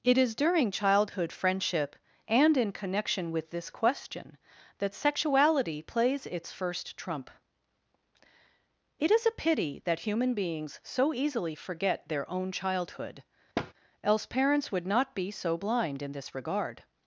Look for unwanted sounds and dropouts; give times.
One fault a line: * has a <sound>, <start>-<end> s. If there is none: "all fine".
* has a thud, 13.6-13.7 s